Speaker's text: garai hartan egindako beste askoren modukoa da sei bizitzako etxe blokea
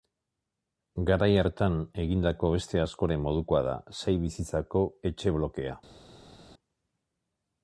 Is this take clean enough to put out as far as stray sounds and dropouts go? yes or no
yes